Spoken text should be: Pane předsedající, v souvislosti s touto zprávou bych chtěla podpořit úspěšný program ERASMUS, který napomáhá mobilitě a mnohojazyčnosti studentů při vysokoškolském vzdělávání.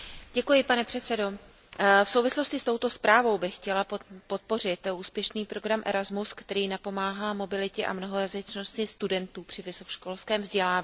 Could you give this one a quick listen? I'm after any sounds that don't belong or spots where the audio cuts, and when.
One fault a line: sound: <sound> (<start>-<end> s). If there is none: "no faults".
no faults